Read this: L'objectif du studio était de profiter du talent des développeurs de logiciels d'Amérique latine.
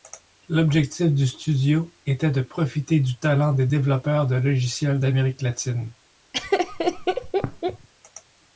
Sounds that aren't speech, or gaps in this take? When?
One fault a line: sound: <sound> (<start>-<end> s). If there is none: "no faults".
sound: laugh (6.3-7.9 s)